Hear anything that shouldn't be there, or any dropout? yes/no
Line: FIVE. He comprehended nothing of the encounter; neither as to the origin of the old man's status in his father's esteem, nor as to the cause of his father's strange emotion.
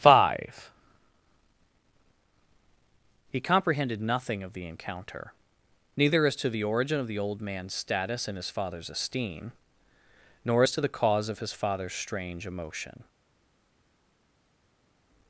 no